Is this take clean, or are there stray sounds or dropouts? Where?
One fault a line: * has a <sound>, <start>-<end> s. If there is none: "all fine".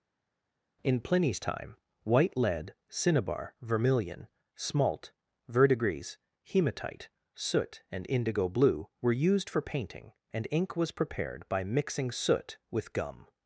all fine